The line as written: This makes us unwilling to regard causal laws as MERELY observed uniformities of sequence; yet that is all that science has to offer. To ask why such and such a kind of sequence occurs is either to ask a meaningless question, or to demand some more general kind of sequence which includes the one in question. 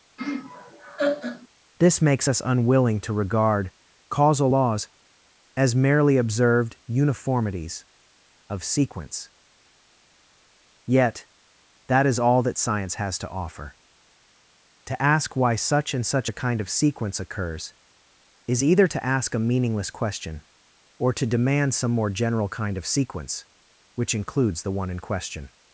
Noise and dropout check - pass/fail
fail